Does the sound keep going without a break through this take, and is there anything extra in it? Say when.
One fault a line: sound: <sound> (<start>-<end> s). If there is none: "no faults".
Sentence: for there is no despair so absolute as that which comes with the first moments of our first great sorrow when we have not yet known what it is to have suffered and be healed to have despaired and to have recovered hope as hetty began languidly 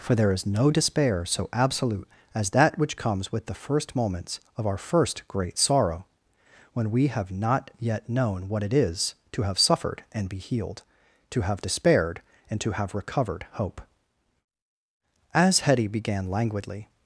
no faults